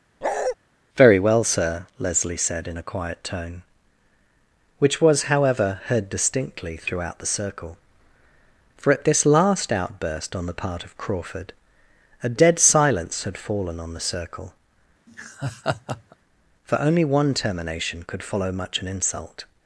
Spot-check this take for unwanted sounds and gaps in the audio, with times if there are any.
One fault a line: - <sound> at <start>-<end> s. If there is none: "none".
- bark at 0.2-0.6 s
- laugh at 15.1-16.2 s